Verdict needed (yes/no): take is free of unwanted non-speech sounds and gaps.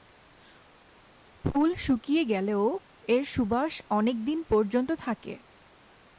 yes